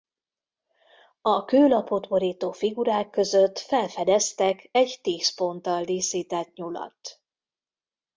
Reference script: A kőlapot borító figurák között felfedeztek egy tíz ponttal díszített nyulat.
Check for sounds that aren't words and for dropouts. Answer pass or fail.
pass